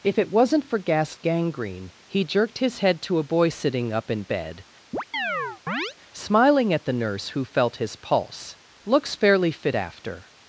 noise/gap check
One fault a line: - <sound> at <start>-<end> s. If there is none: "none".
- chirp at 4.9-5.9 s